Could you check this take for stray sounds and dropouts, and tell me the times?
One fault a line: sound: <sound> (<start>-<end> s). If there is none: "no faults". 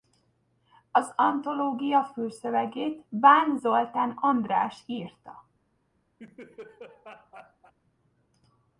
sound: laugh (6.2-7.7 s)